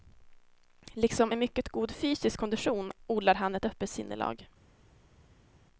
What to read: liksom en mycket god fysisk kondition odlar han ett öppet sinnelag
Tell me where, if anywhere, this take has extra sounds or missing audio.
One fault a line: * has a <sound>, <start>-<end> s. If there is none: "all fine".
all fine